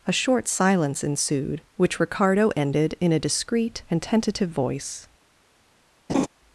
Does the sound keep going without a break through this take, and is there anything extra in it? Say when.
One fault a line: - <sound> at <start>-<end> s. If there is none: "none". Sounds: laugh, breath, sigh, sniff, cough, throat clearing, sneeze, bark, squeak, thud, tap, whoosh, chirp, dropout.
- laugh at 6.1-6.3 s